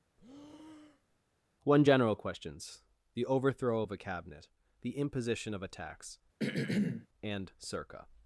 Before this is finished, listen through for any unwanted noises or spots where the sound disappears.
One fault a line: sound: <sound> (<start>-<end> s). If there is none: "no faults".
sound: breath (0.2-1.2 s)
sound: throat clearing (6.4-7.1 s)